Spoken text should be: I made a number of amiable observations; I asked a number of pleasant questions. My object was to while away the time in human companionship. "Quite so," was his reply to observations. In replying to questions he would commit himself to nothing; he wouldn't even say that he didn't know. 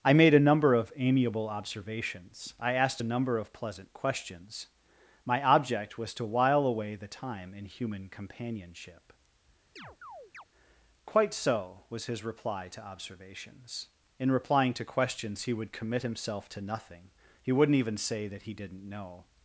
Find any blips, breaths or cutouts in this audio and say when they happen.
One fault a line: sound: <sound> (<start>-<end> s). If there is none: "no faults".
sound: chirp (9.8-10.4 s)